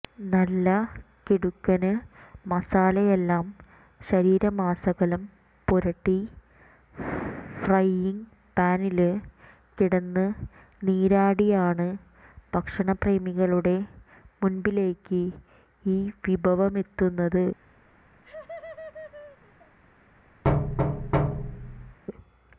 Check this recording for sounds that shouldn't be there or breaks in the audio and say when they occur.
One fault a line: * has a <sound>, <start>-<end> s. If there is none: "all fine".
* has a laugh, 18.2-19.8 s
* has a thud, 20.4-22.0 s